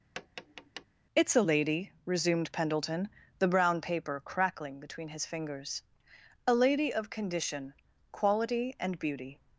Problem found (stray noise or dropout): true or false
true